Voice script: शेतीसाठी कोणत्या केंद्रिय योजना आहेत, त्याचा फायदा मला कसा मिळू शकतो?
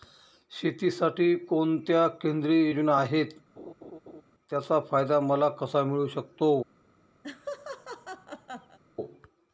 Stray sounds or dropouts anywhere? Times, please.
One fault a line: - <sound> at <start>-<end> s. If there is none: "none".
- laugh at 3.6-4.2 s
- laugh at 7.2-8.8 s